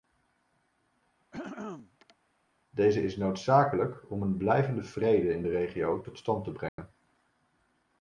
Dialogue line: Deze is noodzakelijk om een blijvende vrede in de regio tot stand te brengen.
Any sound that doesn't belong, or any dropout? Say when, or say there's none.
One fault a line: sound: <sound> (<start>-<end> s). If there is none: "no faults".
sound: throat clearing (1.3-2.2 s)
sound: dropout (6.7-6.8 s)